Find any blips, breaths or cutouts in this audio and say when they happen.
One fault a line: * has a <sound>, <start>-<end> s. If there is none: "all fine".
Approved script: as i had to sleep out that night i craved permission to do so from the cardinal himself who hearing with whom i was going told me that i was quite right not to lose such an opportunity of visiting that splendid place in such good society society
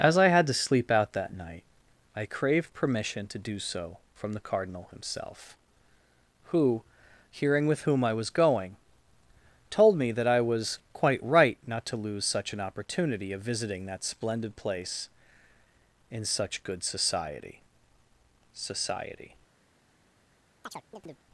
* has a chirp, 20.6-21.3 s